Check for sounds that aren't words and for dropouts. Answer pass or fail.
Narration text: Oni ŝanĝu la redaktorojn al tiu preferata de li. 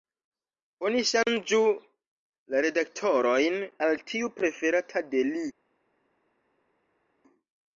pass